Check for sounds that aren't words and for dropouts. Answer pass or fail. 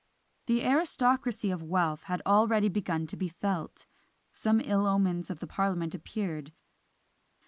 pass